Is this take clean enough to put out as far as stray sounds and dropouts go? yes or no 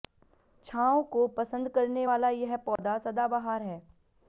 no